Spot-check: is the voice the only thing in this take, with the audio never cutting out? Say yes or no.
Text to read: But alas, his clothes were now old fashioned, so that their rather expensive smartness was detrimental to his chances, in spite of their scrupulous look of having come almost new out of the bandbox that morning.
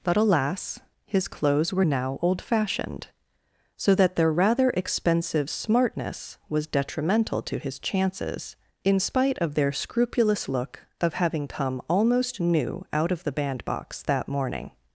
yes